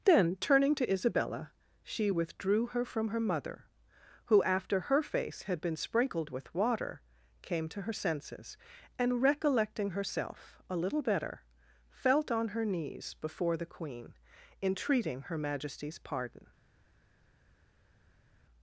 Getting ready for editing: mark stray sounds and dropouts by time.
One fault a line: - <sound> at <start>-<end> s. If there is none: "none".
none